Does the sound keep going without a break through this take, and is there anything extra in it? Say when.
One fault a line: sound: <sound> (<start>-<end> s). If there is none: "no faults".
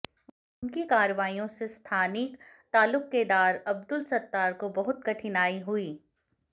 no faults